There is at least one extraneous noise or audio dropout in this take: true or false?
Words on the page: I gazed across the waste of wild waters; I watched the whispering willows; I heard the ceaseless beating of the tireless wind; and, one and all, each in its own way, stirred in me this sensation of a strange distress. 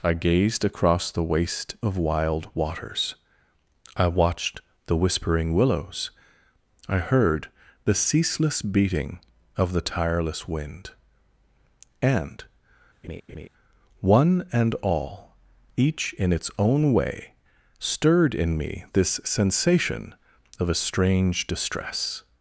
true